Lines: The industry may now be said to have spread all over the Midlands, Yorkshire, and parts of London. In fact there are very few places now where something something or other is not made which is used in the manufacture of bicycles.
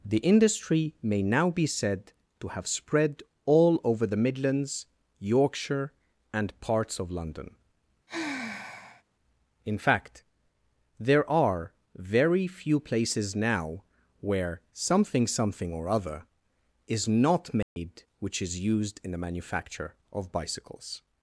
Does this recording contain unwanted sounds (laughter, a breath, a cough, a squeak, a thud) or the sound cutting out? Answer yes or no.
yes